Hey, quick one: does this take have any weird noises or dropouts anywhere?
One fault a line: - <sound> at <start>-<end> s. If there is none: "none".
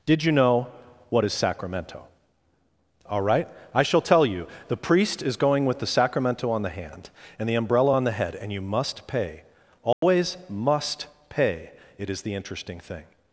- dropout at 9.9-10.0 s